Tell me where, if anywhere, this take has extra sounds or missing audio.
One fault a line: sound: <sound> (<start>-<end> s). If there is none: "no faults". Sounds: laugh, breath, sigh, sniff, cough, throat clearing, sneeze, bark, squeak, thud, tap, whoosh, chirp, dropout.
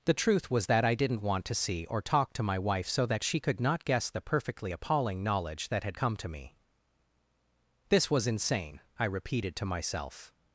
no faults